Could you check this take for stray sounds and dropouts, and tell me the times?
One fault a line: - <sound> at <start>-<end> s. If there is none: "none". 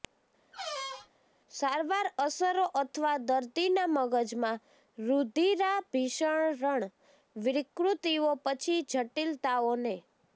- squeak at 0.5-1.1 s